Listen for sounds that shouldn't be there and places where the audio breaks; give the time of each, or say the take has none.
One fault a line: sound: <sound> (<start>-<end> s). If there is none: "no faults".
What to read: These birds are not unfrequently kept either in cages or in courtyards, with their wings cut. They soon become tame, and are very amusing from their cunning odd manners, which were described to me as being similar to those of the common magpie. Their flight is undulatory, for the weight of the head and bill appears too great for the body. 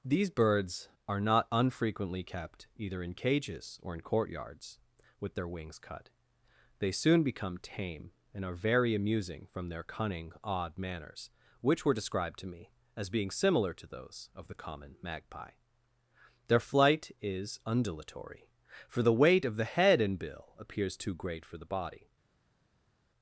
no faults